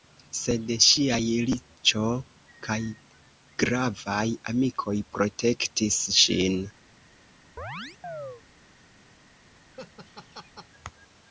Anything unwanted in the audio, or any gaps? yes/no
yes